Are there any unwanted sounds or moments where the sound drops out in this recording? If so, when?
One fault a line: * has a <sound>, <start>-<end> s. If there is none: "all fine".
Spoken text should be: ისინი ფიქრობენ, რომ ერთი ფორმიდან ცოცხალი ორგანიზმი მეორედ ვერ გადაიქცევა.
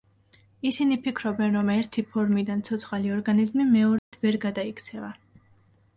* has a dropout, 4.0-4.1 s